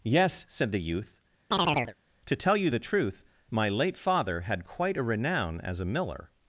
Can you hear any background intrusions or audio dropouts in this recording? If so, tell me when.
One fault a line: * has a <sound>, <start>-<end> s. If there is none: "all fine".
* has a chirp, 1.5-1.9 s